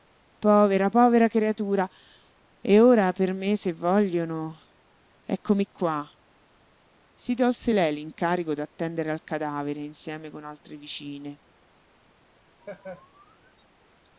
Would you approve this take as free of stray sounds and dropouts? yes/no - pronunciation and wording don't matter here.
no